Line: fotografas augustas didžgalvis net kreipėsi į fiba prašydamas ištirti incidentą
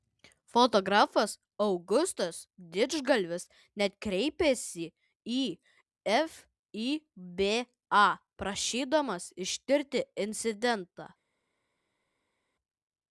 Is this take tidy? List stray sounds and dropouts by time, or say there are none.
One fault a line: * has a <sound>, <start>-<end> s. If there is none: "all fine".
all fine